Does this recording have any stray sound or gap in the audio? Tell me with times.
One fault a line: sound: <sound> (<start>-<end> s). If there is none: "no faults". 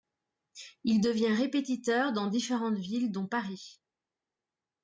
no faults